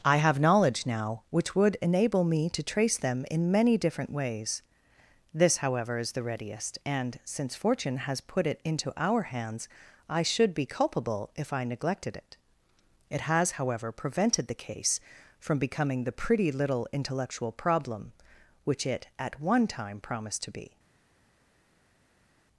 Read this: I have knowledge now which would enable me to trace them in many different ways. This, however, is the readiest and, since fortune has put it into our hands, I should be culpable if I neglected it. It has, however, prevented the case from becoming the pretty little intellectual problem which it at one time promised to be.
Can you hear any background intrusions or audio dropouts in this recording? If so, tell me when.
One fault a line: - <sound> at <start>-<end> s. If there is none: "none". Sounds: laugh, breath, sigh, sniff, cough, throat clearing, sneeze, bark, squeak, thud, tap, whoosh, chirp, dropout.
none